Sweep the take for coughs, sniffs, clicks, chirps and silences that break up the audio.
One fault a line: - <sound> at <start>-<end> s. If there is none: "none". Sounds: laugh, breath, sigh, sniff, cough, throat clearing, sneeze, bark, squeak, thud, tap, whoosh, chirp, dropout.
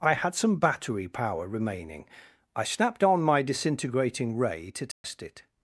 - dropout at 4.9-5.0 s